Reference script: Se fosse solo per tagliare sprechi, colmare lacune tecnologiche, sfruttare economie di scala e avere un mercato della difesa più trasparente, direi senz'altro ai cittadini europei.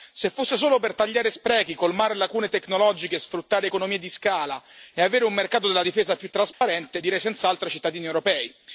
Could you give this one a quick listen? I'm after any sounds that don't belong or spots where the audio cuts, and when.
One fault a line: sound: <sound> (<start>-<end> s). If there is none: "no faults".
sound: dropout (6.5-6.6 s)